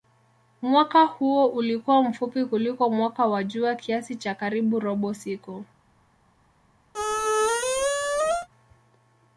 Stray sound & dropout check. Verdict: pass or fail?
fail